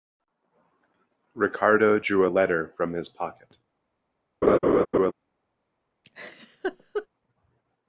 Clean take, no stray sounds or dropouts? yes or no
no